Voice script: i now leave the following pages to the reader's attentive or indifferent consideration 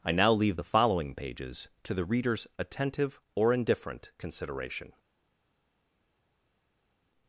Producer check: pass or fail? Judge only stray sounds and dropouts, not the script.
pass